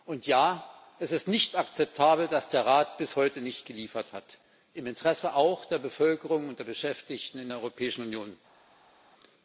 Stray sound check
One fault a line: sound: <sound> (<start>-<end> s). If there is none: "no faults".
no faults